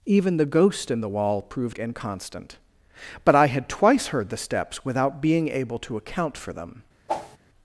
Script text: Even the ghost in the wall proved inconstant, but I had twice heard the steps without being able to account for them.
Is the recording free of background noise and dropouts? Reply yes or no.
no